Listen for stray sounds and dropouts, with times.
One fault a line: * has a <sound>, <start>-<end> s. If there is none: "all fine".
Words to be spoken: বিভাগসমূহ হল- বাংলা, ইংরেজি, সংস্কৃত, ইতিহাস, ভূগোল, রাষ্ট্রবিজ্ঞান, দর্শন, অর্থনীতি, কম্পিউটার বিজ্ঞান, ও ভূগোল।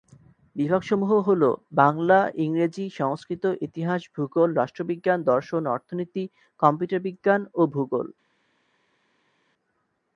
all fine